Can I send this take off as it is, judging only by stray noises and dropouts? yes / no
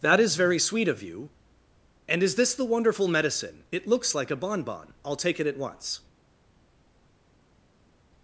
yes